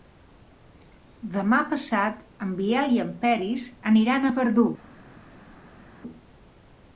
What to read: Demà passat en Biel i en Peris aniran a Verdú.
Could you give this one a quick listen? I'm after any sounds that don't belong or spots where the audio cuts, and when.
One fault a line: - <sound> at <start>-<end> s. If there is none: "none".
none